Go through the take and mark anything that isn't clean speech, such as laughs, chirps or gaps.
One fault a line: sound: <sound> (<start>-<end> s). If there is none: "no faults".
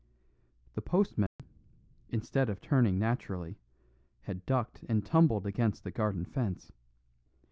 sound: dropout (1.3-1.4 s)